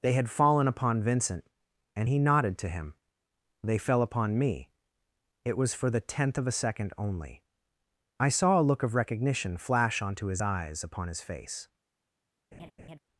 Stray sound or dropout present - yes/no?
yes